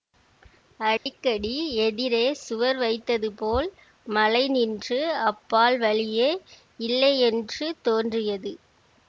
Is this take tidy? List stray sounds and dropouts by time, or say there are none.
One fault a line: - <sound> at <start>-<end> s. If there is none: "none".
- dropout at 1.0-1.1 s